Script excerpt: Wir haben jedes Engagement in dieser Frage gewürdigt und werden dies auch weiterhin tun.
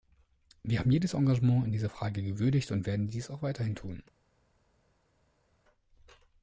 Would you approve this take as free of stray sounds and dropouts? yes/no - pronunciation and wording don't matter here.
yes